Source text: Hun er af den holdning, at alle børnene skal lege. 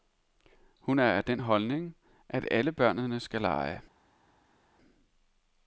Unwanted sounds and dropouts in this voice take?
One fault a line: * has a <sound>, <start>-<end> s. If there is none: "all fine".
all fine